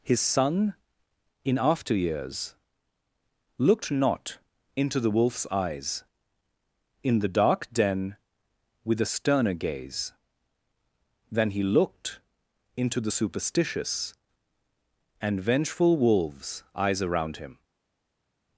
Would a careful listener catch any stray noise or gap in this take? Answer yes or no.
no